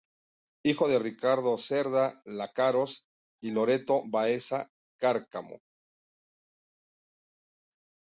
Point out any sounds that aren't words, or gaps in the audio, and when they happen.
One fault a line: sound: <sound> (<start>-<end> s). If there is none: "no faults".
no faults